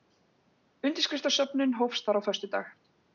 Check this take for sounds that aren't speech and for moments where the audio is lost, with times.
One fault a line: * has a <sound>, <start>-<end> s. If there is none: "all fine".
all fine